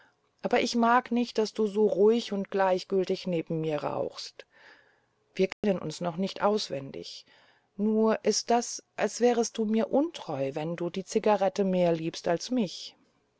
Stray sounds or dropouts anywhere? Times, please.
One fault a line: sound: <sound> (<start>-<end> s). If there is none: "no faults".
sound: dropout (5.5-5.6 s)